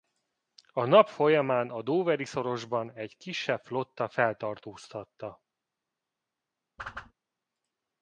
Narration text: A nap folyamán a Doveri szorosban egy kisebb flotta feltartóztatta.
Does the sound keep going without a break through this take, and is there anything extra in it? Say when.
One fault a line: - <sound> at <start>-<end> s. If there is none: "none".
- whoosh at 6.8-7.1 s